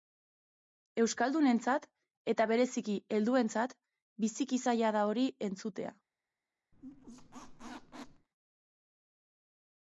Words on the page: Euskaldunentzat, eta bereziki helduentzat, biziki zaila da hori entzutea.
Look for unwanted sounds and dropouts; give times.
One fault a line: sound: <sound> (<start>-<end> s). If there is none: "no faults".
sound: squeak (6.7-8.3 s)